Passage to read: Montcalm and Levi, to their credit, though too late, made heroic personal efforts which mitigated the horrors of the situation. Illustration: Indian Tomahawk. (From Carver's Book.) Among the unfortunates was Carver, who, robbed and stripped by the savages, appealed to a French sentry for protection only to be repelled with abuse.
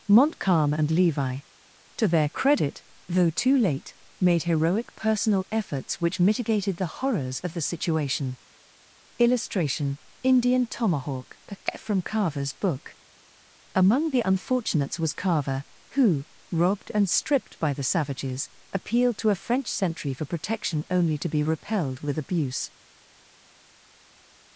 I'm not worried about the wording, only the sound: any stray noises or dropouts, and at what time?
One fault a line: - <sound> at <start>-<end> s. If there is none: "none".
none